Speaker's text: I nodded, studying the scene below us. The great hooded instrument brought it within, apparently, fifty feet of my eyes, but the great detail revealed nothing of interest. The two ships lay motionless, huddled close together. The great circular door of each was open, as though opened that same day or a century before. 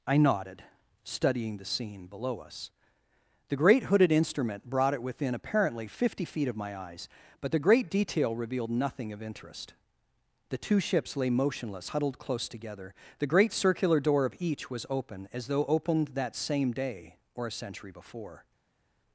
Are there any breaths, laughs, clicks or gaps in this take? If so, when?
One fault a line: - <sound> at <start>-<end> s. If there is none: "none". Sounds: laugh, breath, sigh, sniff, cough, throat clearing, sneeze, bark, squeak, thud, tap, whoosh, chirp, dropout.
none